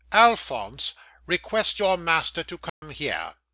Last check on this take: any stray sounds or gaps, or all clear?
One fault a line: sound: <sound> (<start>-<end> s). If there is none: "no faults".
sound: dropout (2.7-2.8 s)